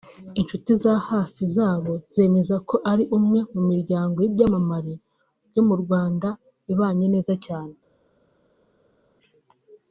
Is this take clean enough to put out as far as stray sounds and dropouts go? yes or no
yes